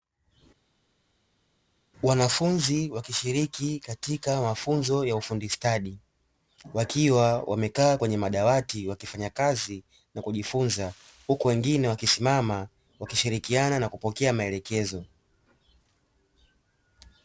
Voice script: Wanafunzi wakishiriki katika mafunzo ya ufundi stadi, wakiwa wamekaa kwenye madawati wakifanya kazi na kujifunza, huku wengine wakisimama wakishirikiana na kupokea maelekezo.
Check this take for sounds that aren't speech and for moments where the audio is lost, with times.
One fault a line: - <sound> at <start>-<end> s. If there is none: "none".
none